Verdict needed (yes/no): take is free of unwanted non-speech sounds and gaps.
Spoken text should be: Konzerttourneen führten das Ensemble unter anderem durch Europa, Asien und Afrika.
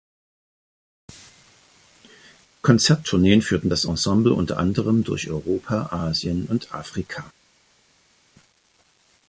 yes